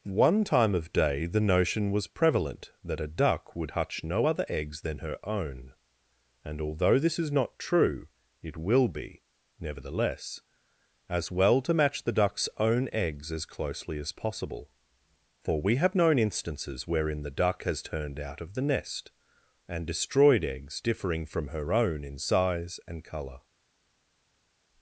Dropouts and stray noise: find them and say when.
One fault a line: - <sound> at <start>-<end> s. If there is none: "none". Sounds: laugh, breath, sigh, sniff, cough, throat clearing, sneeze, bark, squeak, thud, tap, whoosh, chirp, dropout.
none